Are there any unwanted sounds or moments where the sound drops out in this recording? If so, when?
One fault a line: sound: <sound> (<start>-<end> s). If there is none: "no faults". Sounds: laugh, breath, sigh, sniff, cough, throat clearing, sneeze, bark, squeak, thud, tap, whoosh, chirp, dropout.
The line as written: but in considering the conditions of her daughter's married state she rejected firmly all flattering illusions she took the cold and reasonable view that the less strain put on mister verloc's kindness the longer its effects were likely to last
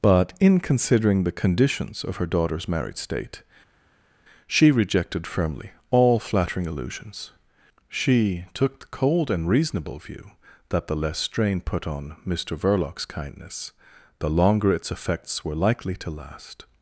no faults